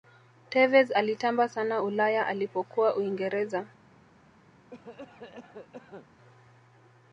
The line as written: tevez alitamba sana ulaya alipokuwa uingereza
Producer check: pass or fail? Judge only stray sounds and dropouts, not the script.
fail